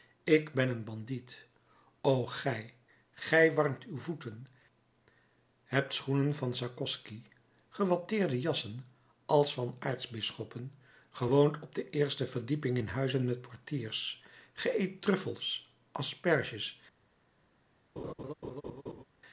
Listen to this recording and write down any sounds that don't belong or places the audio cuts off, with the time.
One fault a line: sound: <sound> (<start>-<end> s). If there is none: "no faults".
sound: laugh (18.0-19.0 s)